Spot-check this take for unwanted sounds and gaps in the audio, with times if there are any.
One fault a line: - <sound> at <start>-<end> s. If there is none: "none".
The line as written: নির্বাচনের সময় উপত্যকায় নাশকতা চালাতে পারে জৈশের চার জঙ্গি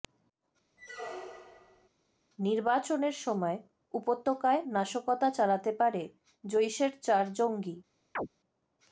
- squeak at 0.8-1.9 s
- chirp at 8.1-8.3 s